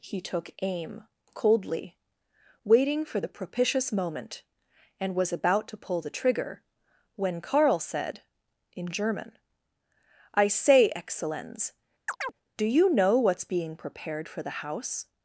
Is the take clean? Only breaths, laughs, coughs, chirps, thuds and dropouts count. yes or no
no